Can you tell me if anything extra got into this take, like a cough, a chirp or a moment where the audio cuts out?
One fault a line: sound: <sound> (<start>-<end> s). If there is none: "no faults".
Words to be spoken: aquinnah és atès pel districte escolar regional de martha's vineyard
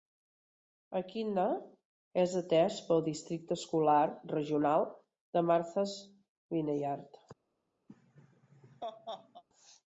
sound: laugh (7.9-9.4 s)